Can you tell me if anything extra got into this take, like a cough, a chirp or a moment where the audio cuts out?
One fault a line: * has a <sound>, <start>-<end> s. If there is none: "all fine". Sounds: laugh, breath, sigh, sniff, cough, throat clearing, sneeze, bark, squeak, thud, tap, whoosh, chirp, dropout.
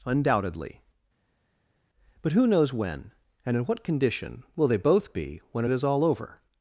all fine